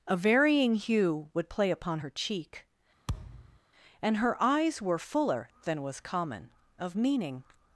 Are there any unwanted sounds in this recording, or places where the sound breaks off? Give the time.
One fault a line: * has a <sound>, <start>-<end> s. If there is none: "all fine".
* has a thud, 3.1-3.6 s